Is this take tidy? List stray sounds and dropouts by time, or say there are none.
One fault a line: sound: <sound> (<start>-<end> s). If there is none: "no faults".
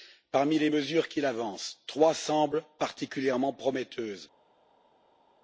no faults